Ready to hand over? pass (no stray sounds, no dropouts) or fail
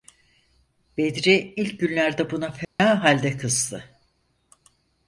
fail